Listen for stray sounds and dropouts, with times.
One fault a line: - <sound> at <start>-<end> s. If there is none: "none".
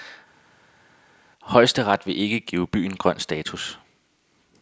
none